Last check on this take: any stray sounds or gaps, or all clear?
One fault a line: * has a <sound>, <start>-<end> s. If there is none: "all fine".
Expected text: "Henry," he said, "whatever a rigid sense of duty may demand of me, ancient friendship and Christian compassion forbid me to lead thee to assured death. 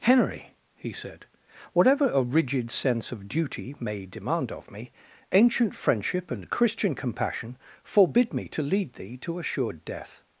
all fine